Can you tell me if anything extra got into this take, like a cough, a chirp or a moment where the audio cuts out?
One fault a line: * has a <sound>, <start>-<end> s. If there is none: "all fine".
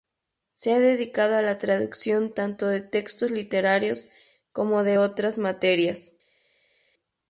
all fine